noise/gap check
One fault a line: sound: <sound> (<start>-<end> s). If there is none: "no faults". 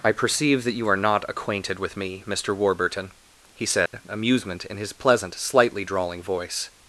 sound: dropout (3.9-3.9 s)